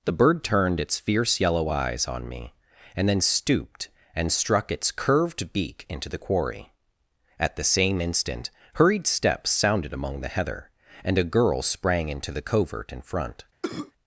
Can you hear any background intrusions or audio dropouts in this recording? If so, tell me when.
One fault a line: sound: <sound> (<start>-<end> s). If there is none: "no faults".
sound: cough (13.6-13.9 s)